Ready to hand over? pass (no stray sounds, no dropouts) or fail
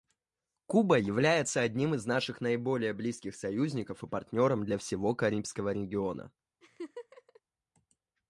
fail